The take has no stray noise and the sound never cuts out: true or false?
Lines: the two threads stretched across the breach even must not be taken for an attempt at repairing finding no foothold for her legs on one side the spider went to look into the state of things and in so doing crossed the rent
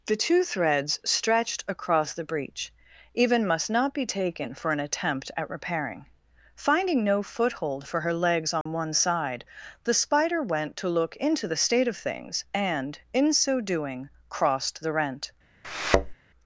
false